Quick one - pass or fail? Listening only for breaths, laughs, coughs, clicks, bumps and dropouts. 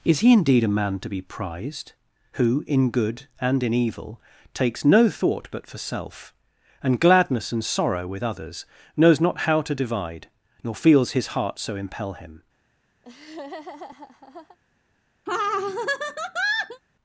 fail